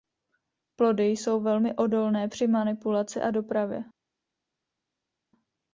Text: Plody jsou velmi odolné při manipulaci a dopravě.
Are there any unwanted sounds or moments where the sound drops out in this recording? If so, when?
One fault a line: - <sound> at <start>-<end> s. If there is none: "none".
none